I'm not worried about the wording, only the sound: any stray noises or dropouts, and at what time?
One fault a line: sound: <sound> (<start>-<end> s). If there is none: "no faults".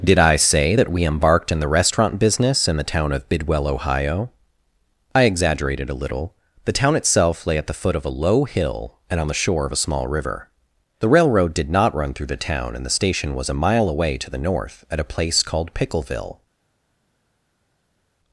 no faults